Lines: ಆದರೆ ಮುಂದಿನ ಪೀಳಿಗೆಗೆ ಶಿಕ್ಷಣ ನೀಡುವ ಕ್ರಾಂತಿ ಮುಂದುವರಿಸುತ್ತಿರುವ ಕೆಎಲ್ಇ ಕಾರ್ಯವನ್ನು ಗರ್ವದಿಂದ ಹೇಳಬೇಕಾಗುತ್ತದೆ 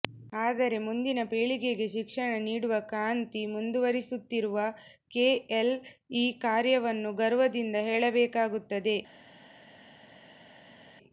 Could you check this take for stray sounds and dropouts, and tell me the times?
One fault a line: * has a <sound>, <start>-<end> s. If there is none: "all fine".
all fine